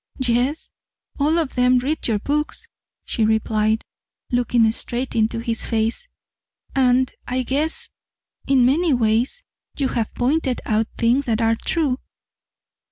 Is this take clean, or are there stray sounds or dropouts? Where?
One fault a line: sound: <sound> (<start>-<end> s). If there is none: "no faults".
no faults